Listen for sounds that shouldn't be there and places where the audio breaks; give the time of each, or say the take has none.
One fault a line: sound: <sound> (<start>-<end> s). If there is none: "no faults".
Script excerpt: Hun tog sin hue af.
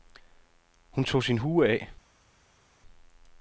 no faults